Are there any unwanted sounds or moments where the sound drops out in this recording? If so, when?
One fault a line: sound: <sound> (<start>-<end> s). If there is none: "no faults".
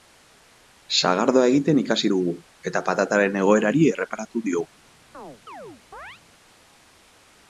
sound: chirp (5.1-6.2 s)